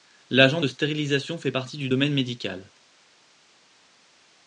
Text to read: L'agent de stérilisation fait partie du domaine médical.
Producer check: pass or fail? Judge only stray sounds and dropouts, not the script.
pass